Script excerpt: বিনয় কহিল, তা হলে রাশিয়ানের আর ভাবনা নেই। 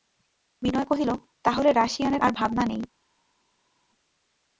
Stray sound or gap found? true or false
false